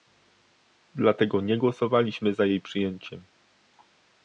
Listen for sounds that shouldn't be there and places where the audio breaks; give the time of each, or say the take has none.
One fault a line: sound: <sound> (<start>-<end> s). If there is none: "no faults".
no faults